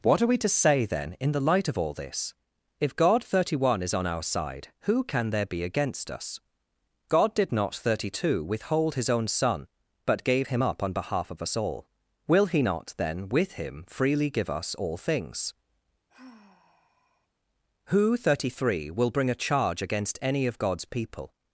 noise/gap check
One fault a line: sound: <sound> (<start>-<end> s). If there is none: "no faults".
sound: sigh (16.1-17.3 s)